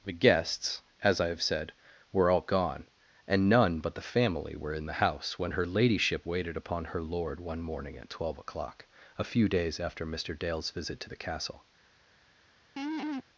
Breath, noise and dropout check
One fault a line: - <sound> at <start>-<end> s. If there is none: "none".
- laugh at 12.8-13.2 s